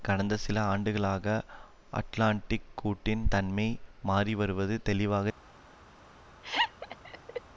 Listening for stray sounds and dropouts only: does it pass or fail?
fail